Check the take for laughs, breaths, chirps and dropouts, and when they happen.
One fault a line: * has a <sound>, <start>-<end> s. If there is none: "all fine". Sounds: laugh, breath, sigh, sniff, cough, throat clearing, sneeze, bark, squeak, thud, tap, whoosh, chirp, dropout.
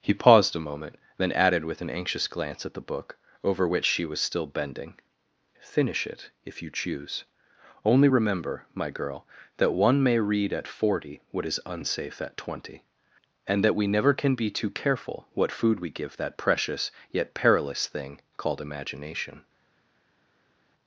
all fine